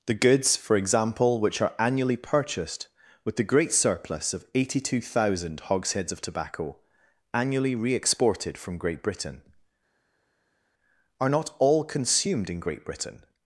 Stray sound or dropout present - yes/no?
no